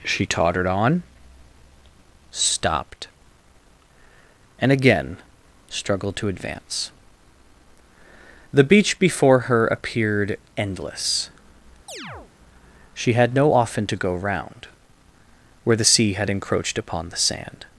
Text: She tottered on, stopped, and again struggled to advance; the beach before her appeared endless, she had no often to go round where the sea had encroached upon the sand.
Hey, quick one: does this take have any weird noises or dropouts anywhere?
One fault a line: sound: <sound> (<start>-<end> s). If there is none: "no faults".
sound: chirp (11.9-12.3 s)